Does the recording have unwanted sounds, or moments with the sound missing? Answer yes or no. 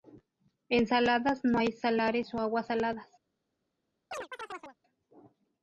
yes